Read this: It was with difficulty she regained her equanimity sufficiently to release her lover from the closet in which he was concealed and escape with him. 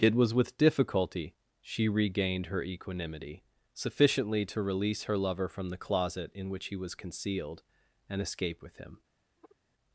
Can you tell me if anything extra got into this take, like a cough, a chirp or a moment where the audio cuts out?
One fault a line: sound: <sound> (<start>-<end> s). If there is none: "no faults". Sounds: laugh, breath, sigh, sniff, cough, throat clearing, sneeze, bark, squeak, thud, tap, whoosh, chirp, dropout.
sound: sigh (9.4-9.6 s)